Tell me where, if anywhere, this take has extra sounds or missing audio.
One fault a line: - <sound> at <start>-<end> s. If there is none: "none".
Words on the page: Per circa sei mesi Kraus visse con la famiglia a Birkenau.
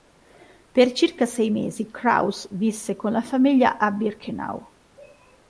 none